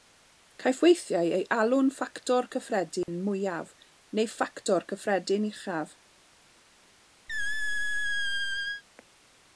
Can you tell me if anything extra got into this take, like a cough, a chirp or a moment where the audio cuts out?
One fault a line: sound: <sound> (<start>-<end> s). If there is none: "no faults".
sound: dropout (3.0-3.1 s)
sound: squeak (7.3-8.8 s)